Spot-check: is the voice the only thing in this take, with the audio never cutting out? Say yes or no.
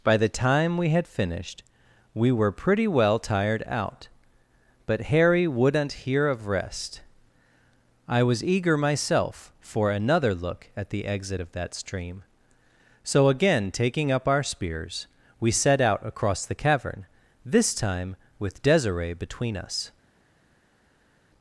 yes